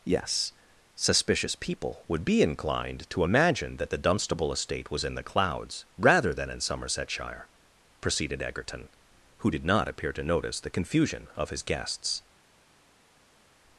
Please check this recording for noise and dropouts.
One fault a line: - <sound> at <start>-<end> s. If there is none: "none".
none